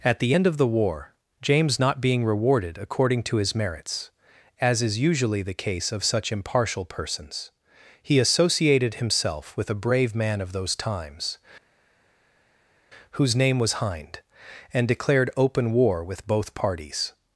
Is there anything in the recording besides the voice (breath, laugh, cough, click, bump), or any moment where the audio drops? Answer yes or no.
no